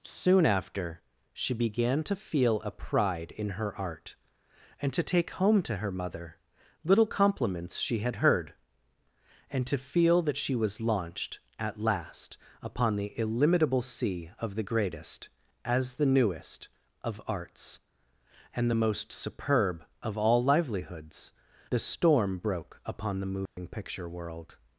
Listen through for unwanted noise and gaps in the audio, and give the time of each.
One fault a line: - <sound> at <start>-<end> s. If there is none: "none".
- dropout at 23.5-23.6 s